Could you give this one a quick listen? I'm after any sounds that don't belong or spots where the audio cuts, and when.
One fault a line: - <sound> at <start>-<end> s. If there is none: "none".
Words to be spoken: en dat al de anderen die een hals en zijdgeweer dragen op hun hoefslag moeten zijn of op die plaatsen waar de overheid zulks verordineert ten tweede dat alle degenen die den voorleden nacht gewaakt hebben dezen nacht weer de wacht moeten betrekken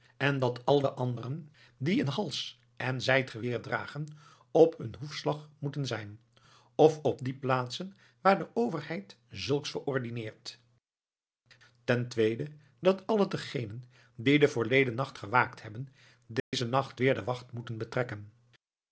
- dropout at 16.4-16.5 s